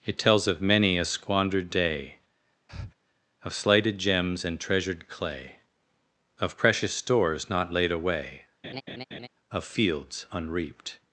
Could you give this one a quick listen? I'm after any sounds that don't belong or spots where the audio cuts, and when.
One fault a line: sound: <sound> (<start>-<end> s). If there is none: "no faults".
sound: breath (2.7-2.9 s)
sound: laugh (8.6-9.3 s)